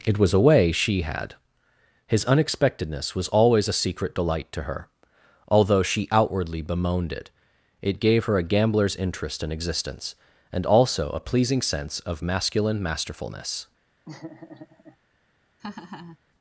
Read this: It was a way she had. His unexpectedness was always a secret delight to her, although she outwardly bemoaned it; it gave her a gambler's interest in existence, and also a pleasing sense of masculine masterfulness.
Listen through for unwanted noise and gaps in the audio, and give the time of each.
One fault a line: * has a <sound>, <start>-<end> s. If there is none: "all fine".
* has a laugh, 14.0-15.0 s
* has a laugh, 15.6-16.2 s